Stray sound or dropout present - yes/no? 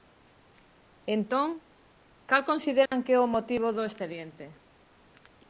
yes